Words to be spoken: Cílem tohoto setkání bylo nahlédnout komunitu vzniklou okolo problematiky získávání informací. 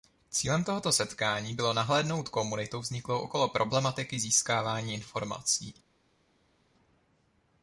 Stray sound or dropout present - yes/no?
no